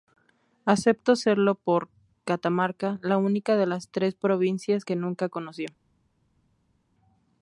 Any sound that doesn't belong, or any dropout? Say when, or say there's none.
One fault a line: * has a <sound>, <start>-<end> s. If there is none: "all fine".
all fine